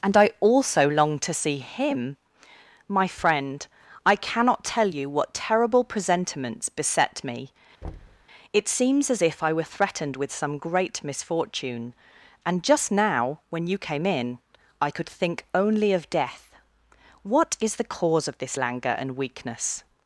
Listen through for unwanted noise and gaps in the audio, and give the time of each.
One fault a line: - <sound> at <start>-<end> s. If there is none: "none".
- thud at 7.8-8.3 s